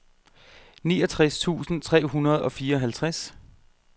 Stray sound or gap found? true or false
false